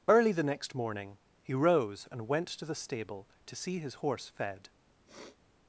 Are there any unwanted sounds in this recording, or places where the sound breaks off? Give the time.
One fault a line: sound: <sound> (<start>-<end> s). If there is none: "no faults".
sound: sniff (5.1-5.4 s)